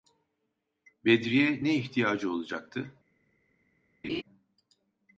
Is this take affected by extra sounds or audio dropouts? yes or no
yes